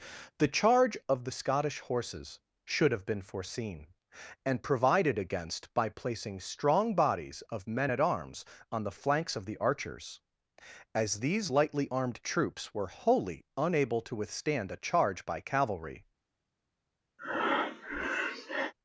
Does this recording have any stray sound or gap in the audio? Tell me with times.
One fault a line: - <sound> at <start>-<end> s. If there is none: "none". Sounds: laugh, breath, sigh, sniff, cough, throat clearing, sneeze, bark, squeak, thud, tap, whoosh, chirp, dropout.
- breath at 17.2-18.7 s